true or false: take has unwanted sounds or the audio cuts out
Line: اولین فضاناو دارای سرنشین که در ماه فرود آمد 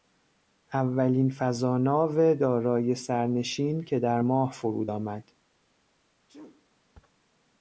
true